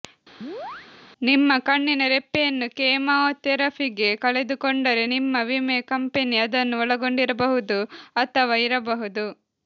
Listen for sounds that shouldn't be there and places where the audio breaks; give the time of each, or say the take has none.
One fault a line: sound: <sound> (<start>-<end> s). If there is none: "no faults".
sound: chirp (0.4-0.9 s)